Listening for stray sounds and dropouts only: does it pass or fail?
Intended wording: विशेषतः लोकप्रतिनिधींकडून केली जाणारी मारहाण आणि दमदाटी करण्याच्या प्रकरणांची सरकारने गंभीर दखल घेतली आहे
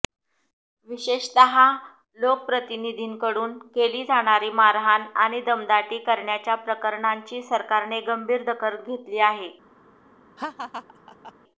fail